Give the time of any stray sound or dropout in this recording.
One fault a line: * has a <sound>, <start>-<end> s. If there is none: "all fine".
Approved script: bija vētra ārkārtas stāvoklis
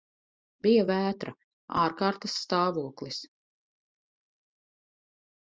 all fine